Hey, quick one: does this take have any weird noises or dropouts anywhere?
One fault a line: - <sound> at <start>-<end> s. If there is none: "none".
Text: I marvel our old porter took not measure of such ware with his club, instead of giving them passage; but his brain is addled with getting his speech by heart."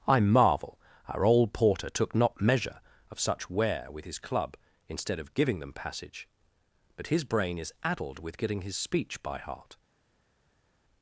none